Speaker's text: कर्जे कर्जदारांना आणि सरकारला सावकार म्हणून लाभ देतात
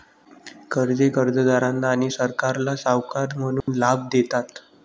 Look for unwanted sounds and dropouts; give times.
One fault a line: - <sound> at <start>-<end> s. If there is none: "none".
- dropout at 3.6-3.7 s